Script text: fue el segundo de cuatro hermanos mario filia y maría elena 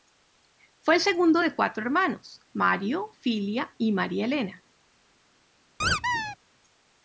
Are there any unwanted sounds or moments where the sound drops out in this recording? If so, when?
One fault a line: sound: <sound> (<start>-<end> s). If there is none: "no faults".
sound: squeak (5.8-6.4 s)